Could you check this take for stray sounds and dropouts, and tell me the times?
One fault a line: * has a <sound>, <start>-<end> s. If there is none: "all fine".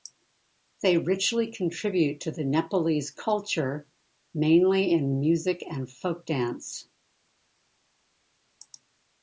all fine